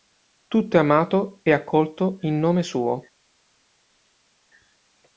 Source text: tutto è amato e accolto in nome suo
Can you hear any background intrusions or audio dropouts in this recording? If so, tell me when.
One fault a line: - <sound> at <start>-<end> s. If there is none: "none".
none